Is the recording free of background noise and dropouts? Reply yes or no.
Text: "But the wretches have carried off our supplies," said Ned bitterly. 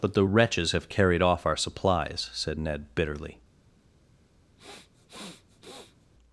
no